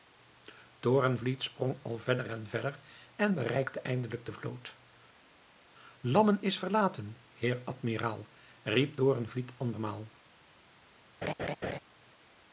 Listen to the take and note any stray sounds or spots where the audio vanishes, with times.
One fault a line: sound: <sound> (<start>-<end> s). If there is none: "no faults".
sound: laugh (11.2-11.8 s)